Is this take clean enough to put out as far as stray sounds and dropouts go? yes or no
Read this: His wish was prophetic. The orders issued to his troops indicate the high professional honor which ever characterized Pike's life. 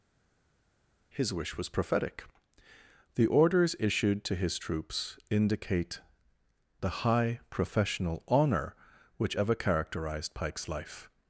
yes